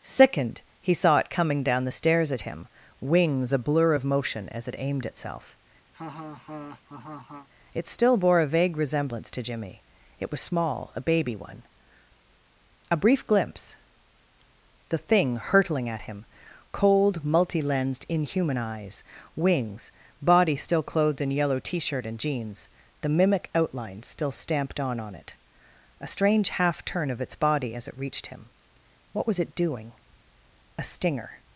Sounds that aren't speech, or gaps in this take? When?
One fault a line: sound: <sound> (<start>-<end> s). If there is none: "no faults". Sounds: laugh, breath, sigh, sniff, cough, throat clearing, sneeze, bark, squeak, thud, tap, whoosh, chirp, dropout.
sound: laugh (5.9-7.5 s)